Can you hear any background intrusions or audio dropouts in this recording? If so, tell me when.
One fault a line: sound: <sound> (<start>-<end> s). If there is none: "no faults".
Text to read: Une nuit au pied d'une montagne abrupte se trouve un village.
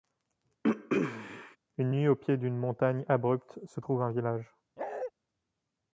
sound: throat clearing (0.6-1.6 s)
sound: bark (4.8-5.1 s)